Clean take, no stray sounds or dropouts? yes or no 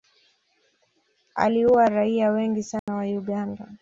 no